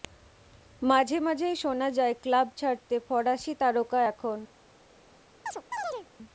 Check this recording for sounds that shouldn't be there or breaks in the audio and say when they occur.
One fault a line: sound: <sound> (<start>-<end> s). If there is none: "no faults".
sound: chirp (5.5-6.1 s)